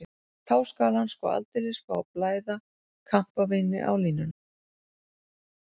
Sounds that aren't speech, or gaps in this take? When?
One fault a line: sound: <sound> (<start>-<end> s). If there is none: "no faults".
no faults